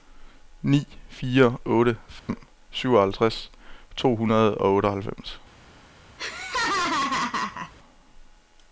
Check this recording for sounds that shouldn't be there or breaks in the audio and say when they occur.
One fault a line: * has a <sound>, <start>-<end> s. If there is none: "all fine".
* has a dropout, 2.2-2.3 s
* has a laugh, 6.2-7.7 s